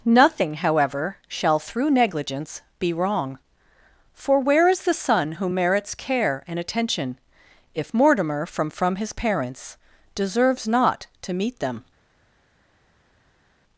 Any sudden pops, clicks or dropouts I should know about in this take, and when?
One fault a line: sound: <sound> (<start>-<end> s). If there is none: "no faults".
no faults